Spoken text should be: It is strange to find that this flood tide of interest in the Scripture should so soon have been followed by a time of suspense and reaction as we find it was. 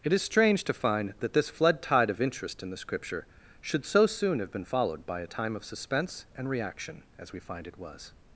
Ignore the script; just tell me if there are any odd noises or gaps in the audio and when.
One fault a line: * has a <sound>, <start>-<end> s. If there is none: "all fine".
all fine